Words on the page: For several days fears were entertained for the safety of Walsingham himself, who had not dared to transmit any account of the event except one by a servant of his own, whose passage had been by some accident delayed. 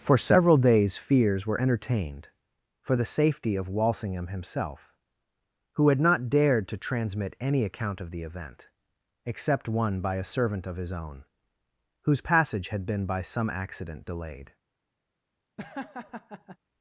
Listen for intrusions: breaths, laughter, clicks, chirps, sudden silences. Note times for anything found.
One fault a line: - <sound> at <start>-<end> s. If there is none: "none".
- laugh at 15.6-16.6 s